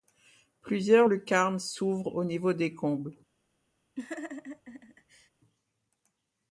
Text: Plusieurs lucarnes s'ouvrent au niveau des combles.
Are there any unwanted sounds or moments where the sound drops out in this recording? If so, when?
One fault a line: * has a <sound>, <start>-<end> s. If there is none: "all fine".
* has a laugh, 4.0-5.3 s